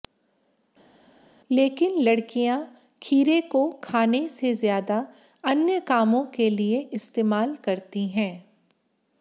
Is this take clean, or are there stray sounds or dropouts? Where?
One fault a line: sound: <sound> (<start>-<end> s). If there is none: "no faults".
no faults